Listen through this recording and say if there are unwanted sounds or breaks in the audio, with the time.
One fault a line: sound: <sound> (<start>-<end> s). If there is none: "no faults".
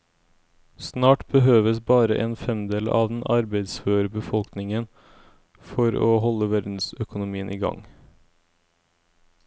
no faults